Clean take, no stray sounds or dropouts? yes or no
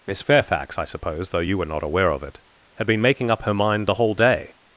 yes